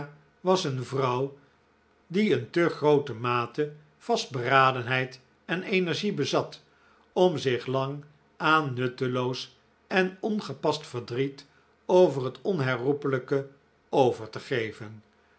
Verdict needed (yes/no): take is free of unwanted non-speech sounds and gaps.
yes